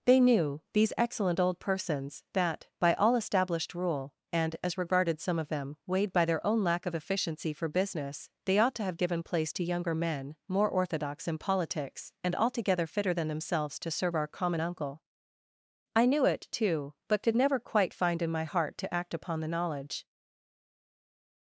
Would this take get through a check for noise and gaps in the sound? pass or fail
pass